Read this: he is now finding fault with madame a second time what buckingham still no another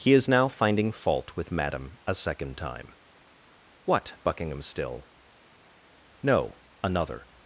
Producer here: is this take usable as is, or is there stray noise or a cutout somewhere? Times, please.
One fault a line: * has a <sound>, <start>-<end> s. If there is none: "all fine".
all fine